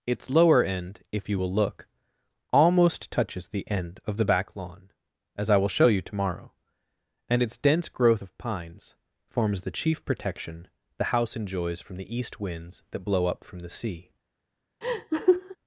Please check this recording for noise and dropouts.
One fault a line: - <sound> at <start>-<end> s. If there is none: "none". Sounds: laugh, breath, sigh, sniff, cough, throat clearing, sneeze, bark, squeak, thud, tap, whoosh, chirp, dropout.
- laugh at 14.8-15.6 s